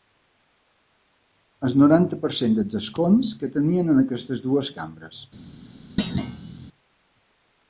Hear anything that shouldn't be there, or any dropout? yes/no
yes